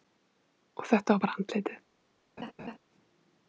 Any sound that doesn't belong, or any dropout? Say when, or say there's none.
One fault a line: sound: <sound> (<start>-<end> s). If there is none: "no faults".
sound: laugh (2.4-2.8 s)